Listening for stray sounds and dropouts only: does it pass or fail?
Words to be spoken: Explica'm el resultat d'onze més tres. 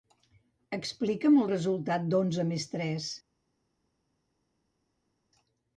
pass